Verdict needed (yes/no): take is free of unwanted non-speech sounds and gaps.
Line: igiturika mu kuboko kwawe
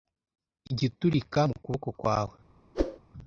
no